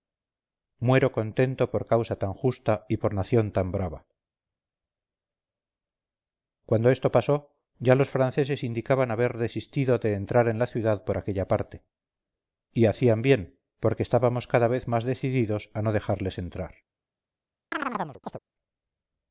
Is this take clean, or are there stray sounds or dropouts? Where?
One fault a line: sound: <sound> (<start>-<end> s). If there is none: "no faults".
sound: chirp (17.7-18.4 s)